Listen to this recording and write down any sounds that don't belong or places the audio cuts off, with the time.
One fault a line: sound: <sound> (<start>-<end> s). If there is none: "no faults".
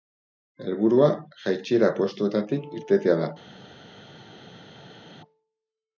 no faults